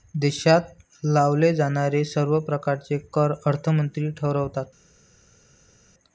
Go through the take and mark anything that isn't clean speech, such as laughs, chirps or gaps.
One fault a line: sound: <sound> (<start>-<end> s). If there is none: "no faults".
no faults